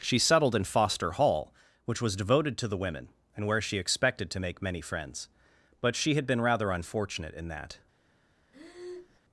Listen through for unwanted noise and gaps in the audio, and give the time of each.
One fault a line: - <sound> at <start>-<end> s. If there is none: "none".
- breath at 8.5-9.2 s